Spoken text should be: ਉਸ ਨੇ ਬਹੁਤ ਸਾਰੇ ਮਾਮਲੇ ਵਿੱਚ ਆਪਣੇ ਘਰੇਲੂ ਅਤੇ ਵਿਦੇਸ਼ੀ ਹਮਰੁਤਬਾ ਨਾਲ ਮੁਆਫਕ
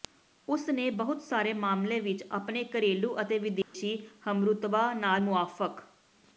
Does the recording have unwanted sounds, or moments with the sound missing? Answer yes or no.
yes